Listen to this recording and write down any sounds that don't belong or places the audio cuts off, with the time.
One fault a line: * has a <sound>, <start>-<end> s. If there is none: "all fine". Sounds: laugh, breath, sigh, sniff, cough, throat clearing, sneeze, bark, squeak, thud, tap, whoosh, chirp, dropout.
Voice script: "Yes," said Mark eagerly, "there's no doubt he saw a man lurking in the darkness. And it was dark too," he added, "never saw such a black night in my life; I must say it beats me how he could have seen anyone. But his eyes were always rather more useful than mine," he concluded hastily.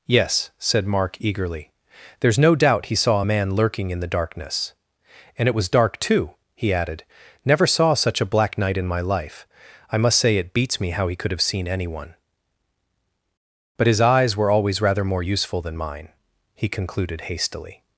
all fine